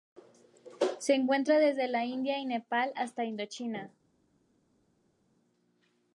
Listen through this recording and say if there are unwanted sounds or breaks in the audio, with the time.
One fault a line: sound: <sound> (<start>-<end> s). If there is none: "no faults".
no faults